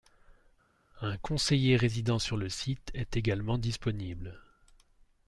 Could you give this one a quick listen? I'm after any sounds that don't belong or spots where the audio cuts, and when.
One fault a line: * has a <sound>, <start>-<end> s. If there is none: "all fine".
all fine